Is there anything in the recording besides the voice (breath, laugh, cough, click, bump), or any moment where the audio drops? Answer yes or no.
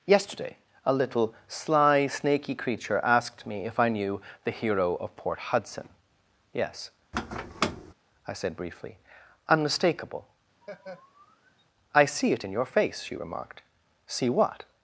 yes